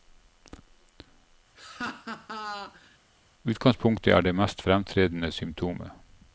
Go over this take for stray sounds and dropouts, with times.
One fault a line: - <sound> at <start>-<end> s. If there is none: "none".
- laugh at 1.6-3.0 s